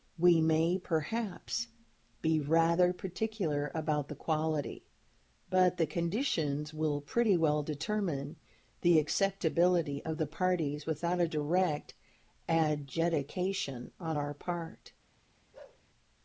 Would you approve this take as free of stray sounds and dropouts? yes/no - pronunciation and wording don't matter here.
no